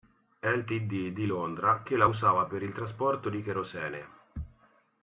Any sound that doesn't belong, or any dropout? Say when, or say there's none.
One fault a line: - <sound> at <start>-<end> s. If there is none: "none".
none